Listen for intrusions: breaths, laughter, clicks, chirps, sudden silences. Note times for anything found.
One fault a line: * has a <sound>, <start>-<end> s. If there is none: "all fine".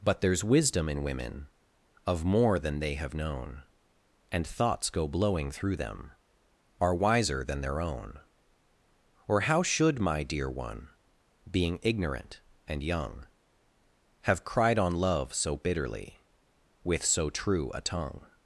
all fine